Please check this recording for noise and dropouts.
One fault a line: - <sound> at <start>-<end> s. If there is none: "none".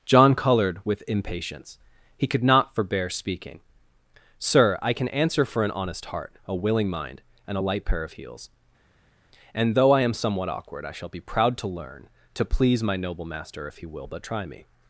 none